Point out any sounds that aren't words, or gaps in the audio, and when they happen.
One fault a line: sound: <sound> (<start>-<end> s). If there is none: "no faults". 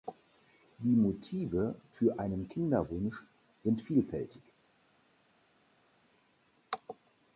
no faults